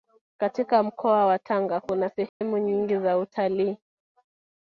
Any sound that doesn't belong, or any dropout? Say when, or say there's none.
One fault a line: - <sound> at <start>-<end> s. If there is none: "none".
- dropout at 2.3-2.4 s